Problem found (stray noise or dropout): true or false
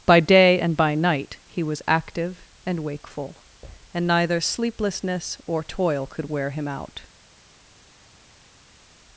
false